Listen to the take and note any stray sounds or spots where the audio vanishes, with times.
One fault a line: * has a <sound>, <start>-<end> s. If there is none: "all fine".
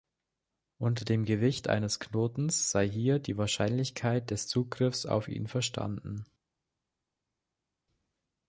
all fine